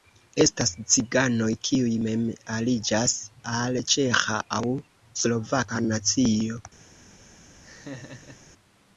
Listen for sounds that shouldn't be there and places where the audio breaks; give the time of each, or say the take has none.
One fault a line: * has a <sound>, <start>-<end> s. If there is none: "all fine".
* has a laugh, 7.6-8.4 s